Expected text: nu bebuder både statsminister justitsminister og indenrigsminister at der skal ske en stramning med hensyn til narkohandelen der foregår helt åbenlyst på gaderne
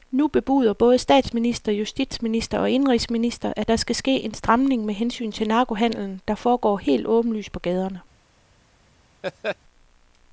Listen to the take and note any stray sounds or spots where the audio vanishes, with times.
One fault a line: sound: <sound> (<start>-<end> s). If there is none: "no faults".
sound: laugh (9.2-9.6 s)